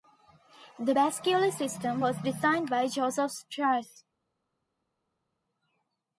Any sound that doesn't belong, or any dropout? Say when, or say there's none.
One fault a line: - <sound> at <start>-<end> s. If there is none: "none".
none